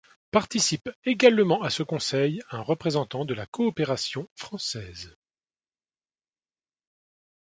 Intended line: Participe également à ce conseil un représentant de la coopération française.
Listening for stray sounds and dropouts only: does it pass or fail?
pass